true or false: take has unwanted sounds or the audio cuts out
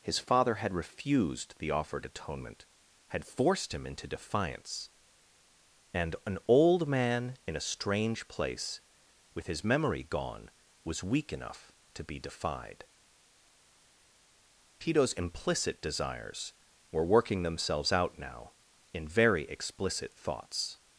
false